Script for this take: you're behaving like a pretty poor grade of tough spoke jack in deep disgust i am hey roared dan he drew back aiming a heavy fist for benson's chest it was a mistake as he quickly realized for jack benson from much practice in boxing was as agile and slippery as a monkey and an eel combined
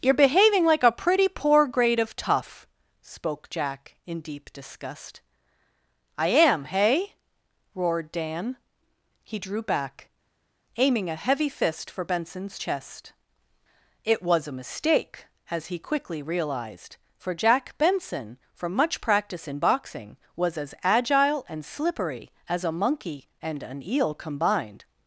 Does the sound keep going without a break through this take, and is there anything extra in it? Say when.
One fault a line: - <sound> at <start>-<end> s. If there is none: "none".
none